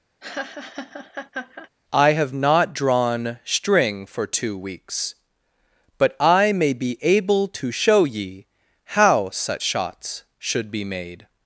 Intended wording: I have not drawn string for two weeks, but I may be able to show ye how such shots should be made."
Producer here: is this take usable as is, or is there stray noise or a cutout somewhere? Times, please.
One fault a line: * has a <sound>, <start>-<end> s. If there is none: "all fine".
* has a laugh, 0.2-1.7 s